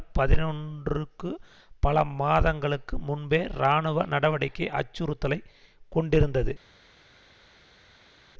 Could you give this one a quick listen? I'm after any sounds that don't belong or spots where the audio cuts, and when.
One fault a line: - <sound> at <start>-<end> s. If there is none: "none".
none